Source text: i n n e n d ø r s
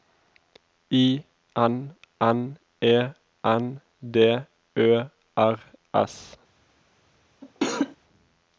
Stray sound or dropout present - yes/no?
yes